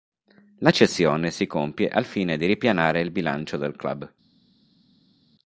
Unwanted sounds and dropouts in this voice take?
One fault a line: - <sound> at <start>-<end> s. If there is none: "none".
none